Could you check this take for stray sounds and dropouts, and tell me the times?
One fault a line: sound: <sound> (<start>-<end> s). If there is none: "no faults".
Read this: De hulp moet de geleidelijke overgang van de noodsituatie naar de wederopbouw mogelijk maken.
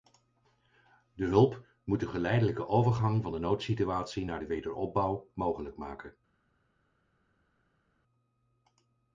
no faults